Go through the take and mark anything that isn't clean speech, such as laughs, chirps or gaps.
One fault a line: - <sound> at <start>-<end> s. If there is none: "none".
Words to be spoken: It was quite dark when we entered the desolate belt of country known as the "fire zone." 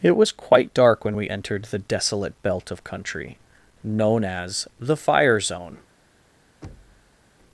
- thud at 6.6-7.2 s